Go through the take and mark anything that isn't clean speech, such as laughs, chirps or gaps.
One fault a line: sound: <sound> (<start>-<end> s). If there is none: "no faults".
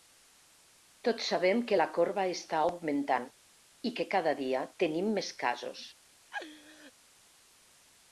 sound: laugh (6.3-6.9 s)